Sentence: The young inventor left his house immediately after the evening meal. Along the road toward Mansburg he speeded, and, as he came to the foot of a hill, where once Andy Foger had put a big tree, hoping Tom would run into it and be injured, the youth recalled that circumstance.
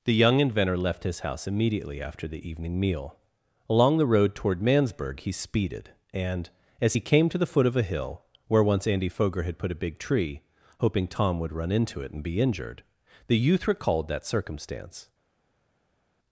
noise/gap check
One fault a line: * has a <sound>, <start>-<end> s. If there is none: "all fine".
all fine